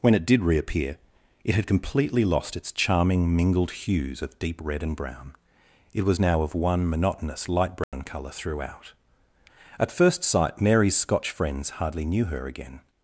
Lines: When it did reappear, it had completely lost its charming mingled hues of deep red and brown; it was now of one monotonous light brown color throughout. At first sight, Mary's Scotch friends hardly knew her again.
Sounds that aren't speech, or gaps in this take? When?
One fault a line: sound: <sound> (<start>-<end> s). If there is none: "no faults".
sound: dropout (7.8-7.9 s)